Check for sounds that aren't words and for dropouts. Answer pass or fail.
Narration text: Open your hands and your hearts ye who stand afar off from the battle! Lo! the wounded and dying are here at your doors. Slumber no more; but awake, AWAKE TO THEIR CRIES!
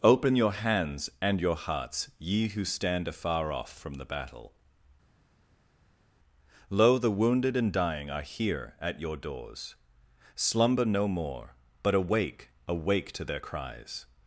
pass